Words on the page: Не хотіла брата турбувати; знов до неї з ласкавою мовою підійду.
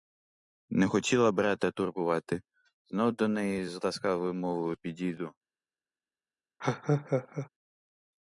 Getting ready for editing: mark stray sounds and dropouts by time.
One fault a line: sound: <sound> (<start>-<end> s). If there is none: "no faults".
sound: laugh (6.6-7.5 s)